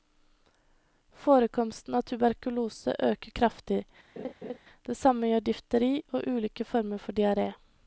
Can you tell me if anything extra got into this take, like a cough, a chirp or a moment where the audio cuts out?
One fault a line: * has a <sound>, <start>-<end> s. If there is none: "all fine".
* has a laugh, 4.2-4.6 s